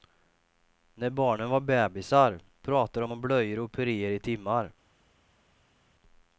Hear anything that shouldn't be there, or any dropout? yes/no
no